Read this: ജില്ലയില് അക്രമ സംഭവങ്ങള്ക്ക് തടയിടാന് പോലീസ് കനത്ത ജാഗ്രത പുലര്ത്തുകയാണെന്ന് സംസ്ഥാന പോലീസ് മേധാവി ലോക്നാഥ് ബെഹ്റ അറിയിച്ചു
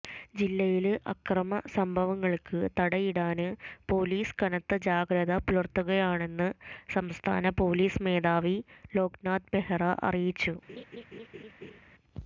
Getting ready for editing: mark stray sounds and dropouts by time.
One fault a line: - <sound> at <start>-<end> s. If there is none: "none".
- laugh at 10.7-11.8 s